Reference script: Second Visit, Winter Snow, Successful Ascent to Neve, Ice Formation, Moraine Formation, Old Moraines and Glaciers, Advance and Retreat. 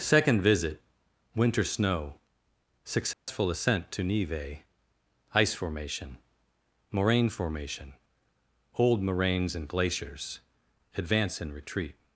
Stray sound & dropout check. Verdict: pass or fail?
fail